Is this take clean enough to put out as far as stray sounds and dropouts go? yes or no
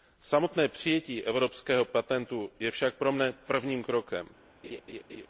no